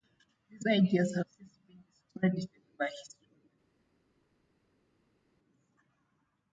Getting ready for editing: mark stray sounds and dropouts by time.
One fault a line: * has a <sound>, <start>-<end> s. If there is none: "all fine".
all fine